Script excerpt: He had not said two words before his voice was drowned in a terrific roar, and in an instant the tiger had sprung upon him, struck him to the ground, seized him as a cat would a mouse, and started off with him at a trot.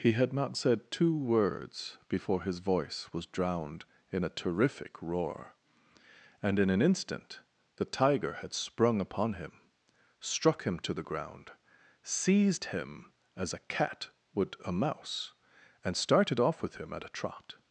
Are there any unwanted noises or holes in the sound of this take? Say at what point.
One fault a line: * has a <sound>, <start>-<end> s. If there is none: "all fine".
all fine